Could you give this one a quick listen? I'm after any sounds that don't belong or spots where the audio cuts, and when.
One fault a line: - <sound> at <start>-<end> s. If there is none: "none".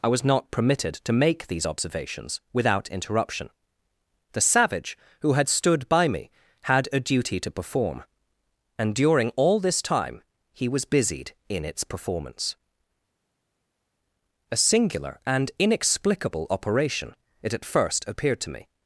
none